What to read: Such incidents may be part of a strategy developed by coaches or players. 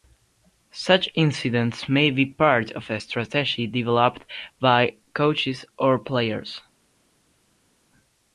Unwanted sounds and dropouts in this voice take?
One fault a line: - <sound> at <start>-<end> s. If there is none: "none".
none